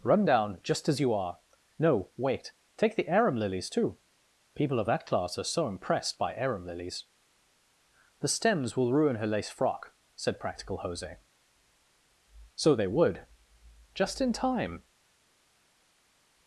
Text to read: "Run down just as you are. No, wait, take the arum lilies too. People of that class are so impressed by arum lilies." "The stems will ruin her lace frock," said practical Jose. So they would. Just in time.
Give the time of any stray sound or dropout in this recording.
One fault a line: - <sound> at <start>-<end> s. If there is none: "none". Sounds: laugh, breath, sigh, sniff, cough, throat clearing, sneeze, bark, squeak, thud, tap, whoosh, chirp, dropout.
none